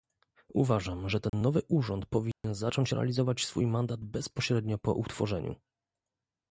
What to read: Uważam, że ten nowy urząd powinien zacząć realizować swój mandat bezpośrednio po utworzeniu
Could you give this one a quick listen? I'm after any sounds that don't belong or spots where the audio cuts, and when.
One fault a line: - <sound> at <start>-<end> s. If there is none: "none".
- dropout at 1.3-1.3 s
- dropout at 2.3-2.4 s